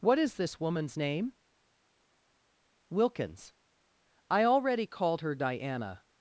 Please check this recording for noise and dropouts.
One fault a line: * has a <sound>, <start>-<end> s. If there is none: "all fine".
all fine